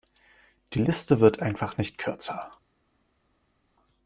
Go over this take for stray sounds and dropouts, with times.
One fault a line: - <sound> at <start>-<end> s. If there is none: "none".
none